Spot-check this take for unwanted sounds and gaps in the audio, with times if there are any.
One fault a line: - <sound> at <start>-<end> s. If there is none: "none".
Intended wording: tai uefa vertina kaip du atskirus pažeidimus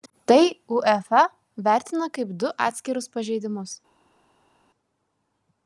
none